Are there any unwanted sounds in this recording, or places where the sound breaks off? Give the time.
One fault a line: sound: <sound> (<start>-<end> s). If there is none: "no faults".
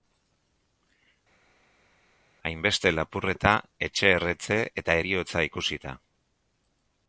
no faults